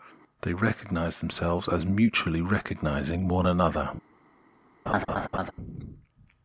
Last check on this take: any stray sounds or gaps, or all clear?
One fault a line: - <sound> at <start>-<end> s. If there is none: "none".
- laugh at 4.9-5.5 s